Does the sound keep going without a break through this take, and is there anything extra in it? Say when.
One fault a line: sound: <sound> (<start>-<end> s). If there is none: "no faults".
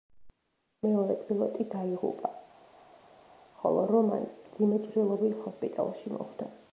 no faults